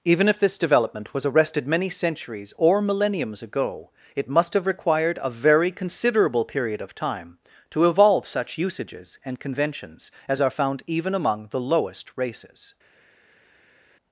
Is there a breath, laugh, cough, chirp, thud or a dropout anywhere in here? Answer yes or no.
no